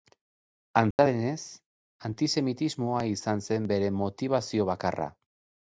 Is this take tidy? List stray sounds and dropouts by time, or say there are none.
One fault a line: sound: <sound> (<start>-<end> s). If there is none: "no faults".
sound: dropout (0.9-1.0 s)